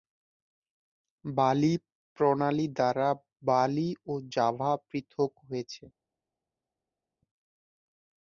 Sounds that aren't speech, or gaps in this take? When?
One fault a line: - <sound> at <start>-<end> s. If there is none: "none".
none